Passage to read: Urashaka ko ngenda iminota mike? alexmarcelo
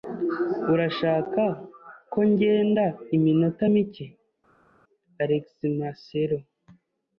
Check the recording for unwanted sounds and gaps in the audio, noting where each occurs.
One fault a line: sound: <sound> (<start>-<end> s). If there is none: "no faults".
no faults